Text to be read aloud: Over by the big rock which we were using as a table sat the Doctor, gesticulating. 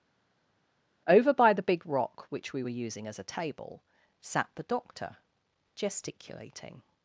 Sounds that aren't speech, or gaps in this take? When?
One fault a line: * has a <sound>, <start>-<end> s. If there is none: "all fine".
all fine